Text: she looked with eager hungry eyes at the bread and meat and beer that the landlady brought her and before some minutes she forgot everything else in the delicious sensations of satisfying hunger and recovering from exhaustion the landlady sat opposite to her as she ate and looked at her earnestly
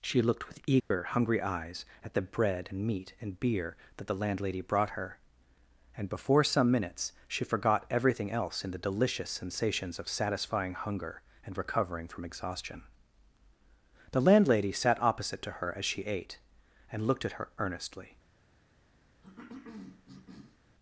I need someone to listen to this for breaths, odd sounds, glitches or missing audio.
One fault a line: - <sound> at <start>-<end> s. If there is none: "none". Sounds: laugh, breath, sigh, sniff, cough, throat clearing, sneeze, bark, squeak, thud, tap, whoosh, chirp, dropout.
- dropout at 0.8-0.9 s
- cough at 19.2-20.6 s